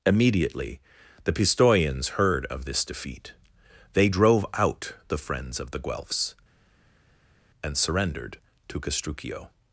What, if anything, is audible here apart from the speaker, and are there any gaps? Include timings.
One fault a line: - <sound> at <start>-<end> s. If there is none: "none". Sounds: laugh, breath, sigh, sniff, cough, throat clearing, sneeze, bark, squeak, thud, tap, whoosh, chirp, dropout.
none